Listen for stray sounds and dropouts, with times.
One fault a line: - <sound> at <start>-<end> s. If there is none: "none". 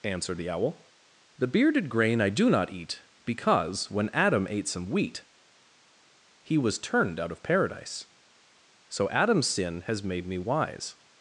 none